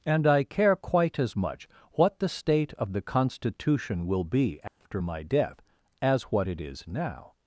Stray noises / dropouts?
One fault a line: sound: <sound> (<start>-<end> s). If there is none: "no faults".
sound: dropout (4.7-4.8 s)